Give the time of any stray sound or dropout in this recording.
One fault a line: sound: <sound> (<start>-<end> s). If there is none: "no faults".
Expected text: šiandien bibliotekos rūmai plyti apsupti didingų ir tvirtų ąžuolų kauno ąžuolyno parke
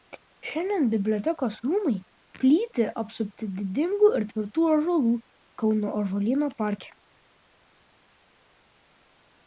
no faults